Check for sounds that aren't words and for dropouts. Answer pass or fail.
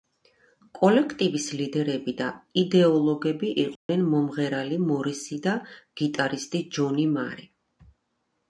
fail